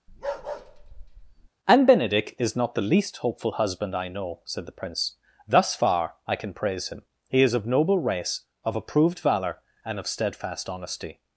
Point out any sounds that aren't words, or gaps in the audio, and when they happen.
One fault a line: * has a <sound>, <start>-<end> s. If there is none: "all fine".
* has a bark, 0.1-1.5 s